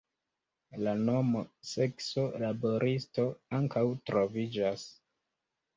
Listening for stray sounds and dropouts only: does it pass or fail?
pass